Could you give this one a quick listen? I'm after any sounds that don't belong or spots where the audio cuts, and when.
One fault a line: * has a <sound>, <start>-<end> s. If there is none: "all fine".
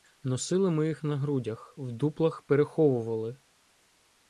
all fine